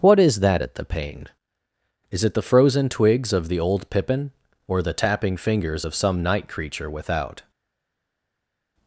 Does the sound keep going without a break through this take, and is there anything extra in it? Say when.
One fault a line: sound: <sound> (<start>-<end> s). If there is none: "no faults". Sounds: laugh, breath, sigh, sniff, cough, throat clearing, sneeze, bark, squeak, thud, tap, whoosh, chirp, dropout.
no faults